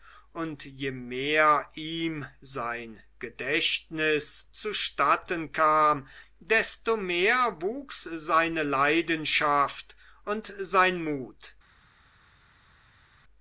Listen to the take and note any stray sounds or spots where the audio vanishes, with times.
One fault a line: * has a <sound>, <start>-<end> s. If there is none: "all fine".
all fine